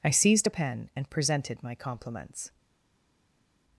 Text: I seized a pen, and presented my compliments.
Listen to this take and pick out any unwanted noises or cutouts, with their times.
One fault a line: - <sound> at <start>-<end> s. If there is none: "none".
none